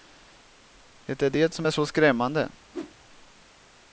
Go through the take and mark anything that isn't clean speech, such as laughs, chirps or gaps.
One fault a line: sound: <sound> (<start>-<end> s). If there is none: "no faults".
sound: whoosh (2.7-2.9 s)